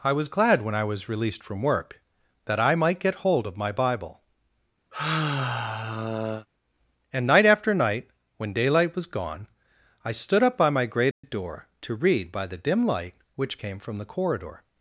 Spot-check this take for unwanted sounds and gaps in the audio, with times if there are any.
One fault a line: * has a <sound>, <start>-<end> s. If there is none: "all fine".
* has a sigh, 4.9-6.5 s
* has a dropout, 11.1-11.2 s